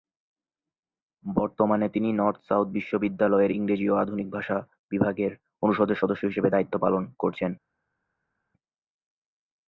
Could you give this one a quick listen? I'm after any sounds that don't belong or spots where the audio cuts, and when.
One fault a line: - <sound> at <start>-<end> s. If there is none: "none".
none